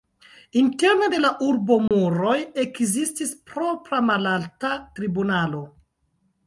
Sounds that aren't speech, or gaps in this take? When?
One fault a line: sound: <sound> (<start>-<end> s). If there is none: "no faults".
sound: dropout (1.9-1.9 s)